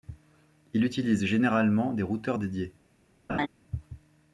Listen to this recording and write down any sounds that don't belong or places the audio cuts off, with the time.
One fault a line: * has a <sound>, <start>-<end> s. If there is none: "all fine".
* has a laugh, 3.3-3.5 s